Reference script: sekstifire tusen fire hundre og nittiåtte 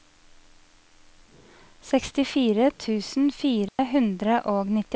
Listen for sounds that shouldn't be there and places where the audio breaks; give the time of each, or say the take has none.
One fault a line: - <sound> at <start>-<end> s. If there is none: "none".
- dropout at 3.7-3.8 s